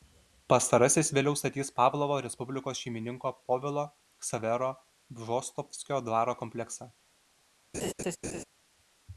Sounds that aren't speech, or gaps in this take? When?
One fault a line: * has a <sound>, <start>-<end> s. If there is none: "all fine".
* has a laugh, 7.7-8.4 s